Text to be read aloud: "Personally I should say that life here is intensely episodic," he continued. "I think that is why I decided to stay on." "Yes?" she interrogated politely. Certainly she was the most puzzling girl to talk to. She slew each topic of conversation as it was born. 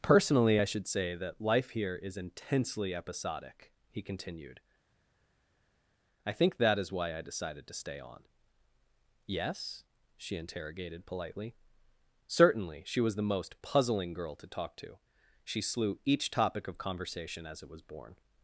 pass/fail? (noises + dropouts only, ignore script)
pass